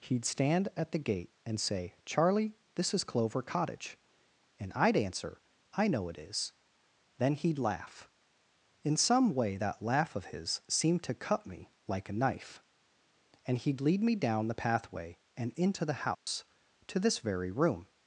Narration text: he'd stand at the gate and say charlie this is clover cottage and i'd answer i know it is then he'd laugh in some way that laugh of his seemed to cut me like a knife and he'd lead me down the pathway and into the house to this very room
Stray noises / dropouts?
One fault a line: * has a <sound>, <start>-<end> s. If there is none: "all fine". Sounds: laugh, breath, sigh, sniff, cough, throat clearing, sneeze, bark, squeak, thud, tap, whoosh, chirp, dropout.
* has a dropout, 16.1-16.3 s